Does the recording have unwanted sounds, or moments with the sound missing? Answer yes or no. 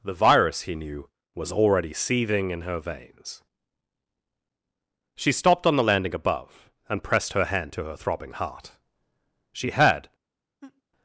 yes